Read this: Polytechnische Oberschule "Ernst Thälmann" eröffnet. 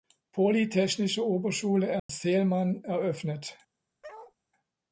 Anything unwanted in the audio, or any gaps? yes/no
yes